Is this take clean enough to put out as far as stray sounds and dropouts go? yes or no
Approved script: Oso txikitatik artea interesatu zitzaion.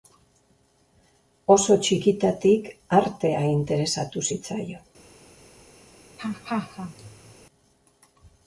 no